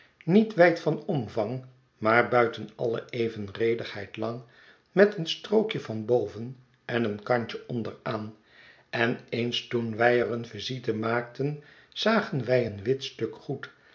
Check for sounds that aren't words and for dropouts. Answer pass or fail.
pass